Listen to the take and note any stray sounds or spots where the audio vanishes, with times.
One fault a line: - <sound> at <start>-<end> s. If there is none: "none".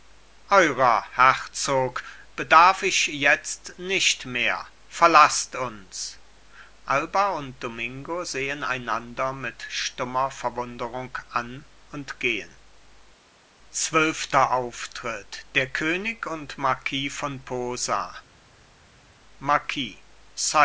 none